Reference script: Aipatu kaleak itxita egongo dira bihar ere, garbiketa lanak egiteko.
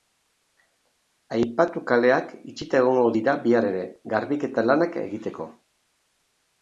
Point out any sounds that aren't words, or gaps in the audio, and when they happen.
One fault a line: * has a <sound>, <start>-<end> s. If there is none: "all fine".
all fine